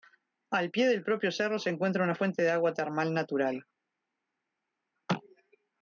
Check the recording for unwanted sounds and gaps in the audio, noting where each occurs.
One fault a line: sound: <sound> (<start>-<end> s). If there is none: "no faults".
no faults